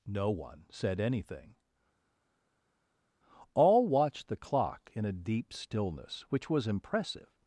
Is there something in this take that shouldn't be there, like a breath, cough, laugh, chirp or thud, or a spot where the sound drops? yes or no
no